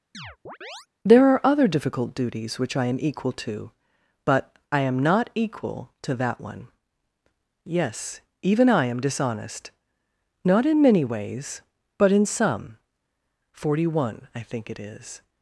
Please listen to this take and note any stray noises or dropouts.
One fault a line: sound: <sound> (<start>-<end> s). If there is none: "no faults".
sound: chirp (0.1-0.9 s)